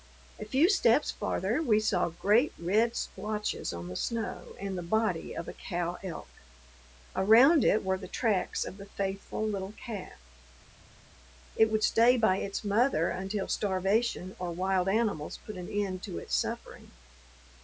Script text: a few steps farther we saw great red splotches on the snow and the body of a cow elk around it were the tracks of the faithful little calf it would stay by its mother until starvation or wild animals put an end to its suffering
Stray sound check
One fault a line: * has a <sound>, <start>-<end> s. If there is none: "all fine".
all fine